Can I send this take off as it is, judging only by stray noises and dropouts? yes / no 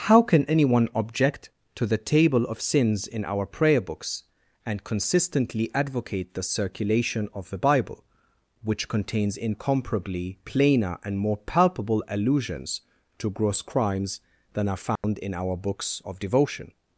no